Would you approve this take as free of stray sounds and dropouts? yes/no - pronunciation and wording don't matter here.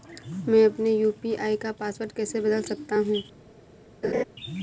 no